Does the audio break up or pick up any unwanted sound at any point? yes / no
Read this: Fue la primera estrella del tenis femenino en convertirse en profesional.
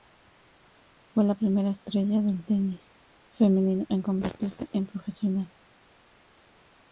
no